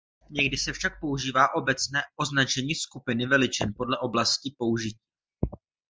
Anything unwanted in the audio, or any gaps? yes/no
no